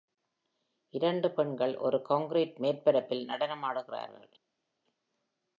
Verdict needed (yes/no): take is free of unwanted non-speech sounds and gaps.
yes